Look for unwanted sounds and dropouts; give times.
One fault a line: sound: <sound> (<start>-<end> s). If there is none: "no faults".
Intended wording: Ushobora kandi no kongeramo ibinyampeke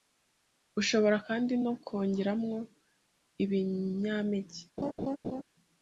sound: laugh (4.8-5.4 s)